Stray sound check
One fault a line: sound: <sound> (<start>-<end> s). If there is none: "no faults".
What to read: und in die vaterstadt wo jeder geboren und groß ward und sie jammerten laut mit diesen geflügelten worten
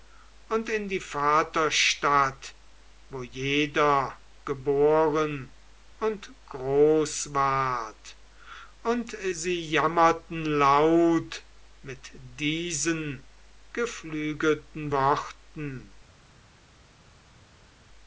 no faults